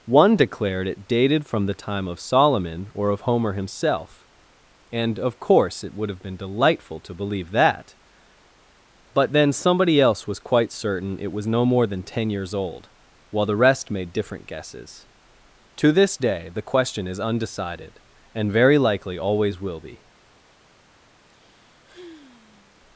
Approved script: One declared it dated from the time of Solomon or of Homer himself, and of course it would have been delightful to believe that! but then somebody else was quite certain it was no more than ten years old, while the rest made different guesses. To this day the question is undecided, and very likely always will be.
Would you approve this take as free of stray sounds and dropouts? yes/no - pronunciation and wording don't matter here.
no